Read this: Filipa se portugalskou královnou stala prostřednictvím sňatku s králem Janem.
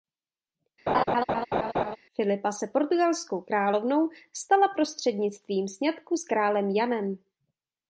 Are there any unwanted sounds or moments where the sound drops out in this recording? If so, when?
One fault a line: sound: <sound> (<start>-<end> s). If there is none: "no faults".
sound: laugh (0.9-2.0 s)